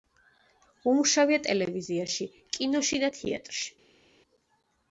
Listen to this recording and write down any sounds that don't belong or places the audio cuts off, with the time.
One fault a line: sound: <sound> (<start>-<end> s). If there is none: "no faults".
no faults